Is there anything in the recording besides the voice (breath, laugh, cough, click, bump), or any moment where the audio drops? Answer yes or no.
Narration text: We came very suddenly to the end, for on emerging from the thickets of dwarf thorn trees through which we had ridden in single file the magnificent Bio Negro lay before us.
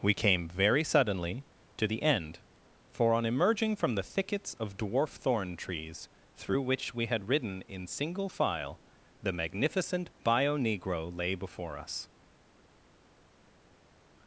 no